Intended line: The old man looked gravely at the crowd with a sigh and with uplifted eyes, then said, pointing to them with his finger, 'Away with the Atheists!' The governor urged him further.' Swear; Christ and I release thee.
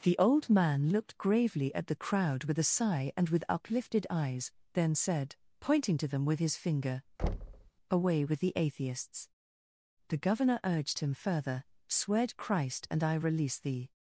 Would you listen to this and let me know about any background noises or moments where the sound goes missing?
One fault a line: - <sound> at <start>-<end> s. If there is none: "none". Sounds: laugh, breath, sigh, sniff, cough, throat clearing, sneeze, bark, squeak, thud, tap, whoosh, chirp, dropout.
- thud at 7.2-7.7 s